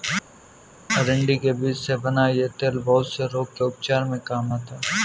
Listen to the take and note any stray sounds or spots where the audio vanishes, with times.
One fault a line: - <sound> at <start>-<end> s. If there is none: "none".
none